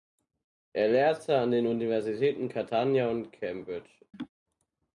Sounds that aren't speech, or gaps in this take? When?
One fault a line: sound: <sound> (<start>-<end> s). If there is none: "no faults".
sound: laugh (4.1-4.3 s)